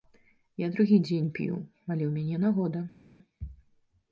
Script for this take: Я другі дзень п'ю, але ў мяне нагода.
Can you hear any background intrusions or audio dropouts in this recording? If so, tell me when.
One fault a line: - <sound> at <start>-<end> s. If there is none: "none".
none